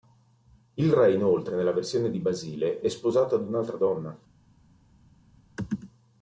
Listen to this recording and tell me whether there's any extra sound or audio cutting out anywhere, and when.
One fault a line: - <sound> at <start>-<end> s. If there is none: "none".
none